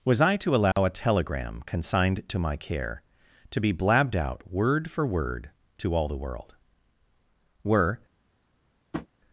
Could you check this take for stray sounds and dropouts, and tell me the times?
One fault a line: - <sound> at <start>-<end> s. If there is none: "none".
- dropout at 0.7-0.8 s
- tap at 8.9-9.1 s